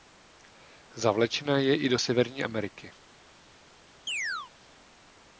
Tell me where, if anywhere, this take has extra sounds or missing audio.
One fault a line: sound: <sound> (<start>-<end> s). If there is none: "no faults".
sound: chirp (4.1-4.5 s)